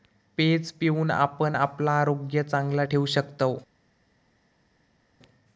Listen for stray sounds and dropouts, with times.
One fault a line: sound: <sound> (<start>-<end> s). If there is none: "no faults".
no faults